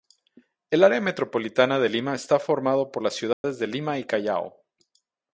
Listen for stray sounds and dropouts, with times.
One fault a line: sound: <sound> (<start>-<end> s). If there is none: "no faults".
sound: dropout (3.3-3.4 s)